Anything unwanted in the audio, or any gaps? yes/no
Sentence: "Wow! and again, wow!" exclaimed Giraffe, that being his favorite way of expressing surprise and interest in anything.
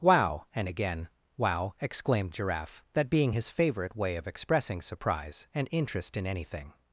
no